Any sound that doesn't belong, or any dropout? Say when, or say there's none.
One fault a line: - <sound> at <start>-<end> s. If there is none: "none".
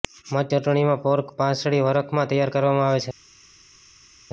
none